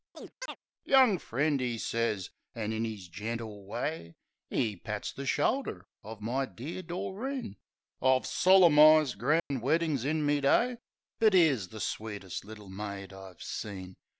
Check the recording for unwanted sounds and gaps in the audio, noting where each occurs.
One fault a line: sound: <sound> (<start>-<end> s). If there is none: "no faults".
sound: chirp (0.1-0.6 s)
sound: dropout (9.4-9.5 s)